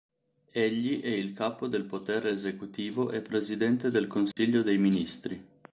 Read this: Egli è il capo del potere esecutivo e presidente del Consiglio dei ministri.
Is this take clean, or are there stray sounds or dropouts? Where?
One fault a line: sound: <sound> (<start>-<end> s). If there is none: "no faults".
sound: dropout (4.3-4.4 s)